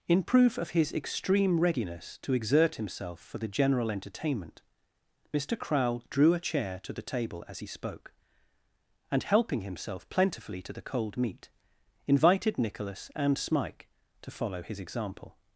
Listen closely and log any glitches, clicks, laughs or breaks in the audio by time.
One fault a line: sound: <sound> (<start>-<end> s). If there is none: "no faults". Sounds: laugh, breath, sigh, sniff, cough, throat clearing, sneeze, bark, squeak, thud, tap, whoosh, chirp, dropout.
no faults